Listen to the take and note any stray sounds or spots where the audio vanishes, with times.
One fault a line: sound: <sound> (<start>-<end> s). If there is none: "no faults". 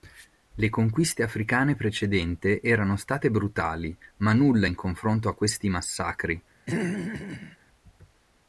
sound: throat clearing (6.7-7.6 s)